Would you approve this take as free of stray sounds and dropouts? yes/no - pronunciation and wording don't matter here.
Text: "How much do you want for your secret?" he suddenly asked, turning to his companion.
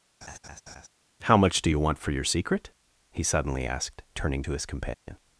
no